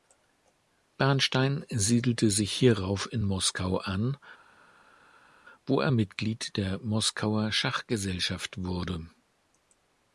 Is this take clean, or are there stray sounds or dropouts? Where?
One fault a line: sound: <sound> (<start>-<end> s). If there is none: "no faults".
no faults